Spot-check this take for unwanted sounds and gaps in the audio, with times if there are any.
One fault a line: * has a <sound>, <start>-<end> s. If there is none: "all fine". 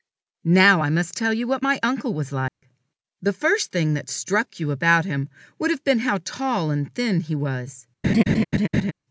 * has a dropout, 2.5-2.6 s
* has a laugh, 8.0-8.9 s